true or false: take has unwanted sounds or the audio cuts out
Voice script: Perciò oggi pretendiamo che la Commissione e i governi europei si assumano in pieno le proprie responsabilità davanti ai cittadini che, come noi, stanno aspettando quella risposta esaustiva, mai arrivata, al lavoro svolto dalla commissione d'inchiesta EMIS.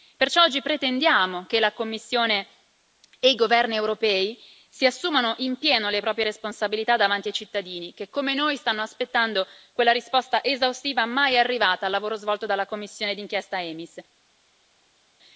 false